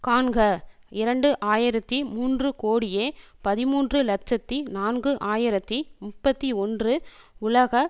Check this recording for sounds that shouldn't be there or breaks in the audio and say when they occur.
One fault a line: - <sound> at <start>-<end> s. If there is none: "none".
none